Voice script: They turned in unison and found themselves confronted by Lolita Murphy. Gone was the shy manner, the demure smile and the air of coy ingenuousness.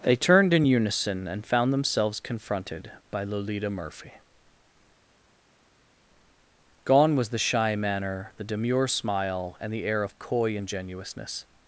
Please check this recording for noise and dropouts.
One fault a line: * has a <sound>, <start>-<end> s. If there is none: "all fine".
all fine